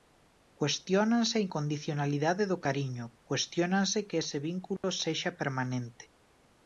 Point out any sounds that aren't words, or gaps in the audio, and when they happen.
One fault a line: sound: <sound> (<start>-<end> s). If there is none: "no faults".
sound: dropout (4.8-4.8 s)